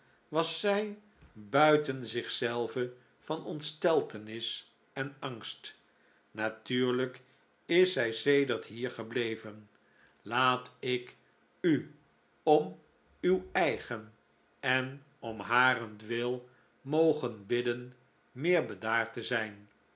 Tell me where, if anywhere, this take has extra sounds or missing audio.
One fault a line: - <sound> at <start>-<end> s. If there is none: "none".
none